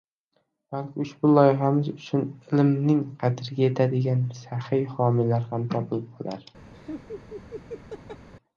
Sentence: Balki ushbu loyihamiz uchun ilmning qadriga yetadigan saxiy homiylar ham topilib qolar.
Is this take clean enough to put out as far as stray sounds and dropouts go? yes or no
no